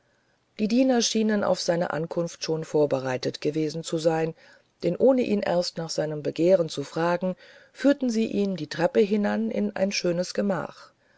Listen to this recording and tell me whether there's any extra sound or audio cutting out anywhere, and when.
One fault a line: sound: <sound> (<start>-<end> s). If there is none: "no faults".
no faults